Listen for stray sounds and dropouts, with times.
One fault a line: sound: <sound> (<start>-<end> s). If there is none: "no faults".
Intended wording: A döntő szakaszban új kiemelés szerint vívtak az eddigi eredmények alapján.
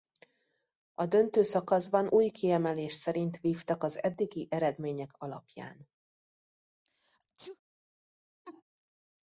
sound: sneeze (6.8-7.6 s)
sound: laugh (8.4-8.6 s)